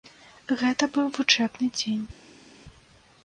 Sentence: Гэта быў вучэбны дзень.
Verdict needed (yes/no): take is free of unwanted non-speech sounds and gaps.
yes